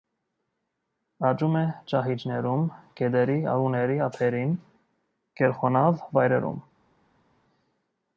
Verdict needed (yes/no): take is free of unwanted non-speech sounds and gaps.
yes